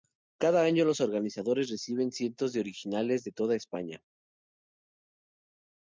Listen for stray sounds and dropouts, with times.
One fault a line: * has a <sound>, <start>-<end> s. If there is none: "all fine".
all fine